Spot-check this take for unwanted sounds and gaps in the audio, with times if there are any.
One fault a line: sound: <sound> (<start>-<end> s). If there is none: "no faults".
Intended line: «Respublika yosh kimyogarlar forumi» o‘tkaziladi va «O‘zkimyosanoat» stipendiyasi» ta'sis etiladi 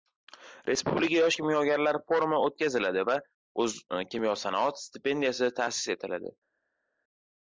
no faults